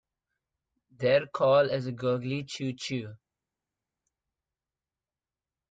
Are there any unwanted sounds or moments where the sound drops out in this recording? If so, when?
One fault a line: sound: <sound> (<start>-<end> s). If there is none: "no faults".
no faults